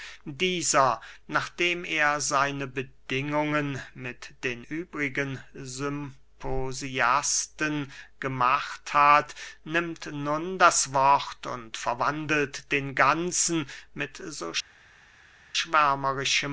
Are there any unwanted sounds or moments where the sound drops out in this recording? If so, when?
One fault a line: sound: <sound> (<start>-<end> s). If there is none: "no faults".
no faults